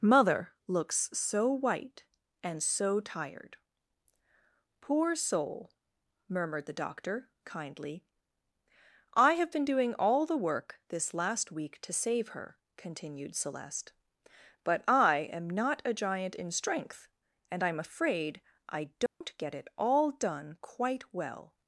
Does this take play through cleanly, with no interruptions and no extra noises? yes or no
no